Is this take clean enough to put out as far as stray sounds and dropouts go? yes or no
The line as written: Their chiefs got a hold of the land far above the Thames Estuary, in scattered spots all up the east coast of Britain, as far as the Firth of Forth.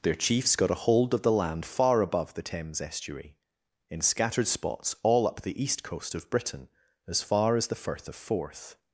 yes